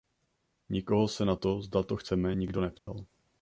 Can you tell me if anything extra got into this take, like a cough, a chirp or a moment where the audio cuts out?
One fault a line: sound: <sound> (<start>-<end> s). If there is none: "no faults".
sound: dropout (2.8-2.9 s)